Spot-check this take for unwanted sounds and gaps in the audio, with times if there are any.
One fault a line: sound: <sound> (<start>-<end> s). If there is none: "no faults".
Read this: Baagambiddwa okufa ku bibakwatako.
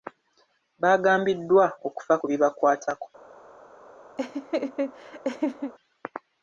sound: laugh (4.2-5.7 s)